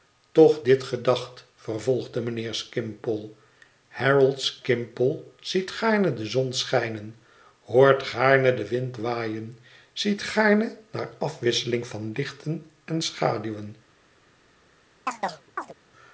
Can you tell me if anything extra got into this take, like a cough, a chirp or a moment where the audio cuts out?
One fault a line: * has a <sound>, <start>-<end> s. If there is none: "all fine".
* has a chirp, 15.1-15.7 s